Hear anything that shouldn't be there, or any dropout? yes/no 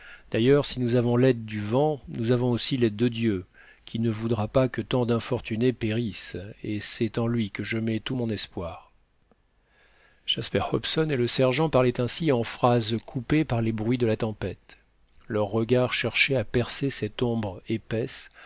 no